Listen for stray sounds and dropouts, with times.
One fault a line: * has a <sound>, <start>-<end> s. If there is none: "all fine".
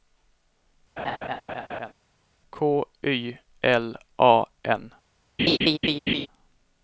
* has a laugh, 1.0-1.9 s
* has a laugh, 5.4-6.3 s